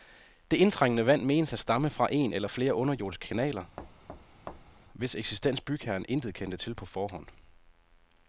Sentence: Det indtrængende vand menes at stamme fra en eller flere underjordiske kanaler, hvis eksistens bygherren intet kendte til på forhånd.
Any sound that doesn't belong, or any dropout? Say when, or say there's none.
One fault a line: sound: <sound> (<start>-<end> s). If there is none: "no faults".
sound: thud (3.8-4.8 s)